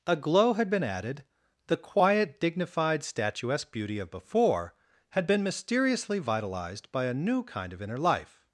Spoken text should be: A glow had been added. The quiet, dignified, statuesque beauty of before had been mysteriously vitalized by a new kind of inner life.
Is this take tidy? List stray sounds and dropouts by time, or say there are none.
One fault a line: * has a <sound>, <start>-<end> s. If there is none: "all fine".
all fine